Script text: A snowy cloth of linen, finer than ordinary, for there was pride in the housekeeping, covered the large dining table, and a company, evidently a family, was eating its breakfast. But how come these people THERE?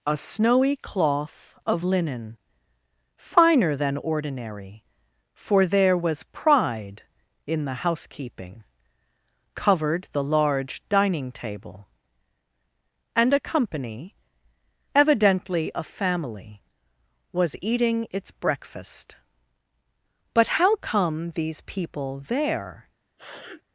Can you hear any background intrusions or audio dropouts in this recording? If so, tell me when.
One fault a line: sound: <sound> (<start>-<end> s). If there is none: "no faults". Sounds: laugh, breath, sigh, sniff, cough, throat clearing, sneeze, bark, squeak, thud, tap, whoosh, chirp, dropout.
sound: sniff (23.2-23.6 s)